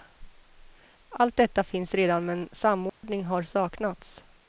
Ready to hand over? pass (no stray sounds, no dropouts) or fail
fail